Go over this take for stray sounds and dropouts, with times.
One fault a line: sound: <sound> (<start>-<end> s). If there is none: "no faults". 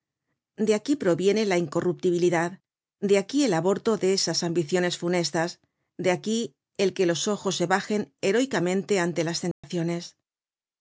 sound: dropout (9.5-9.6 s)